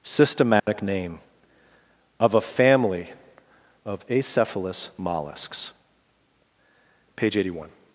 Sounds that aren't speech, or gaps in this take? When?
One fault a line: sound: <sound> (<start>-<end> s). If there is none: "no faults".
sound: dropout (0.6-0.7 s)